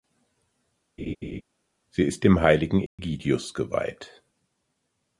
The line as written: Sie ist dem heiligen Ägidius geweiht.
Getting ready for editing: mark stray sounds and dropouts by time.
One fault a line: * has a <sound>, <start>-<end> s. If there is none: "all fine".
* has a laugh, 1.0-1.4 s
* has a dropout, 2.9-3.0 s